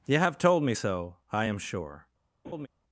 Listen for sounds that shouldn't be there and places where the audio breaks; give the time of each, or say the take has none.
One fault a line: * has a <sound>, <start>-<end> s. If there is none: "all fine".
* has a laugh, 2.4-2.7 s